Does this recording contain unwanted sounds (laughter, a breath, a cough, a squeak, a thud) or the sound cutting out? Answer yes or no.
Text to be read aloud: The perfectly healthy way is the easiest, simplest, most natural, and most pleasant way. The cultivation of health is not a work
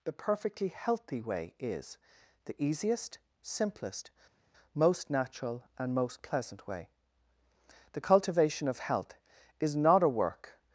no